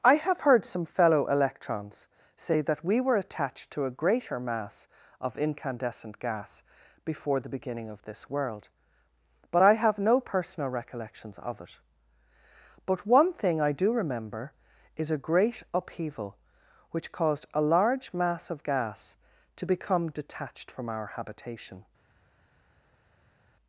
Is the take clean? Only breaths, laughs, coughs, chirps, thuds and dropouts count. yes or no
yes